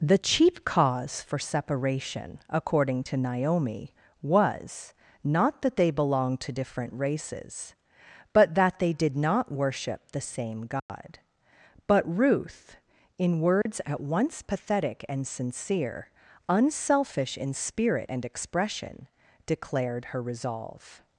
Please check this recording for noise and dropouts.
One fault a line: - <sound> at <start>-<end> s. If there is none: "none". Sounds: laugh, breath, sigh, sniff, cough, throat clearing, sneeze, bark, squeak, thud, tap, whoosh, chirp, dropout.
- dropout at 10.8-10.9 s
- dropout at 13.6-13.7 s